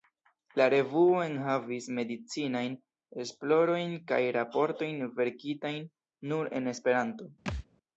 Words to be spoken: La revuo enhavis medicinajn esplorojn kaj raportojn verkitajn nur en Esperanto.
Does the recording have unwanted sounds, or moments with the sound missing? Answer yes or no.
yes